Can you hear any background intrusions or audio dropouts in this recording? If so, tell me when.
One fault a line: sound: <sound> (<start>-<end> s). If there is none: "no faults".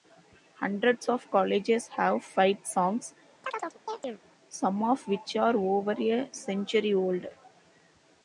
sound: chirp (3.4-4.2 s)